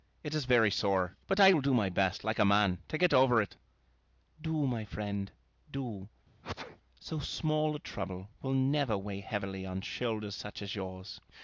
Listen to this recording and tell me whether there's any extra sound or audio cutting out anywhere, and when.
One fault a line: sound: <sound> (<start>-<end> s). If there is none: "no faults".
sound: sneeze (6.4-6.8 s)